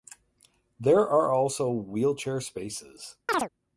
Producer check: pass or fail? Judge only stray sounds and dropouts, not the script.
fail